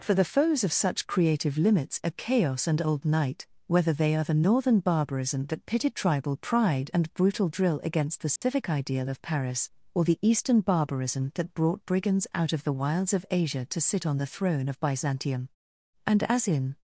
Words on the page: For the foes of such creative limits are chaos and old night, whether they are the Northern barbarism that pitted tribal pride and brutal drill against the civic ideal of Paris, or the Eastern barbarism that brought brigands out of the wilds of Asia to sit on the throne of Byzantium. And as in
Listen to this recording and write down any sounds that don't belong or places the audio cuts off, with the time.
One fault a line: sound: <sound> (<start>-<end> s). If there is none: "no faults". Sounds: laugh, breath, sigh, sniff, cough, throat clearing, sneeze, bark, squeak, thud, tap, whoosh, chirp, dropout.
sound: dropout (8.4-8.4 s)